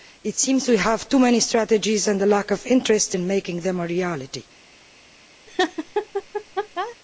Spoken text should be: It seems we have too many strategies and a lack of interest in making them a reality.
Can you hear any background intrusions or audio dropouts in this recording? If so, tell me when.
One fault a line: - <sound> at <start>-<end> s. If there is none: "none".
- laugh at 5.5-7.0 s